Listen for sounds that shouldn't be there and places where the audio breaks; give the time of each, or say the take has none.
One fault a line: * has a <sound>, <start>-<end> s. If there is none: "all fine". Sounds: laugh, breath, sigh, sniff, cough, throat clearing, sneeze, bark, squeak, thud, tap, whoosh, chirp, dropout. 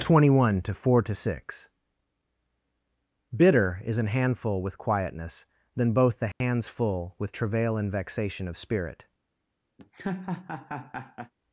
* has a dropout, 6.3-6.4 s
* has a laugh, 9.8-11.3 s